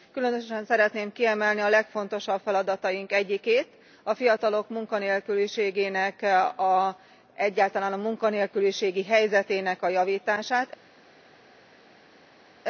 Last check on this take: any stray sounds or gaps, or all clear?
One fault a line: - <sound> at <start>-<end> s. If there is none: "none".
none